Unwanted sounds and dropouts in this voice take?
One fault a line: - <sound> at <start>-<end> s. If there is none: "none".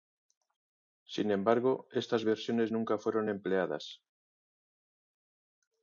none